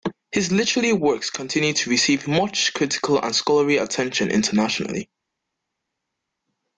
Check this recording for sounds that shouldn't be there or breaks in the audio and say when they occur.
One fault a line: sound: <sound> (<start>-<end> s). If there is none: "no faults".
no faults